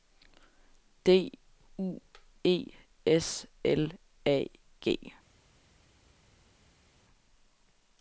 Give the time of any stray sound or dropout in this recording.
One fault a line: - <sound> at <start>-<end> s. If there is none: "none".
none